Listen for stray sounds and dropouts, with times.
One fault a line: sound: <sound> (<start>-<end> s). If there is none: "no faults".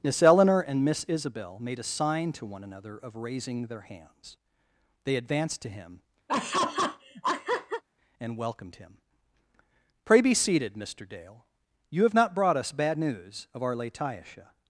sound: laugh (6.3-7.8 s)